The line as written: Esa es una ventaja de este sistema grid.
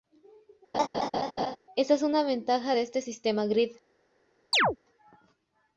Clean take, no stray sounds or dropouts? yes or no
no